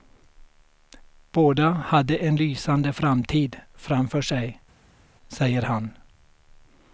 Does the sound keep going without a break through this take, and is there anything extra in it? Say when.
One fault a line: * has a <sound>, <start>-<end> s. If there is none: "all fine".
all fine